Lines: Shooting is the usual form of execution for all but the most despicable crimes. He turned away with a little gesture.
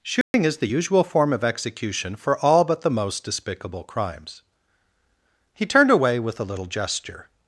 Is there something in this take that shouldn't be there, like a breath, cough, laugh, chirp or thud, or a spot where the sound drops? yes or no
yes